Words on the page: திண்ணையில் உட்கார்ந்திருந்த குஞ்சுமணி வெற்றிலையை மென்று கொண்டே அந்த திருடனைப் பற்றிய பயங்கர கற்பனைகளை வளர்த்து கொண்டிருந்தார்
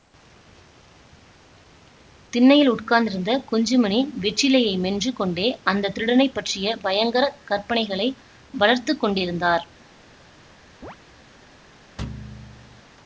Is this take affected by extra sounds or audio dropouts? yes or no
yes